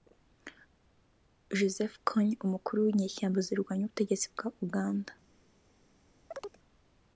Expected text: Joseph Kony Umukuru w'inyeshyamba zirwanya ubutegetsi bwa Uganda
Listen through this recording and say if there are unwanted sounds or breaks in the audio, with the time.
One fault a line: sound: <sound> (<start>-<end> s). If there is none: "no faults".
sound: chirp (6.3-6.6 s)